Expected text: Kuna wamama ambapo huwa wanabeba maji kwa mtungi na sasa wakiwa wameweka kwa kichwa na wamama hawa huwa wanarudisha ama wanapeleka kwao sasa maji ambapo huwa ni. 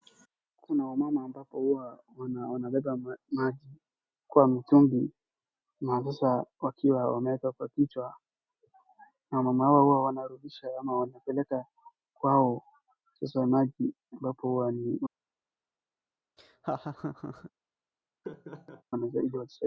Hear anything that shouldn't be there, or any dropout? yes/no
yes